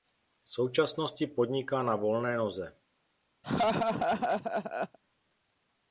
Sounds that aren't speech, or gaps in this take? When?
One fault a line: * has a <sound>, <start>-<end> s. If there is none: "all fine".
* has a laugh, 3.4-5.0 s